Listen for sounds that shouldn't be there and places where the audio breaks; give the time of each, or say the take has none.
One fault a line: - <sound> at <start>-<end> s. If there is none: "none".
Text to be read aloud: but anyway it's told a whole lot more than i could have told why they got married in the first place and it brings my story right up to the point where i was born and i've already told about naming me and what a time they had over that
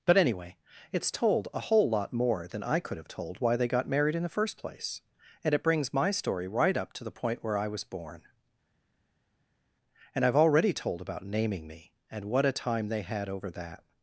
none